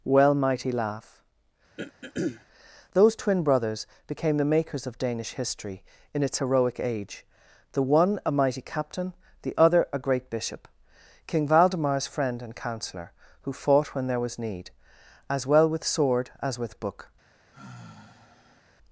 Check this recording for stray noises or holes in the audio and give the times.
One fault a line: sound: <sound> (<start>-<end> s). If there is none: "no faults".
sound: throat clearing (1.8-2.5 s)
sound: sigh (17.5-18.6 s)